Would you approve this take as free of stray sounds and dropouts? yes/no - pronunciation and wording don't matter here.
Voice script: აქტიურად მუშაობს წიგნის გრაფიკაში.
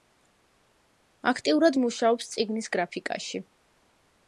yes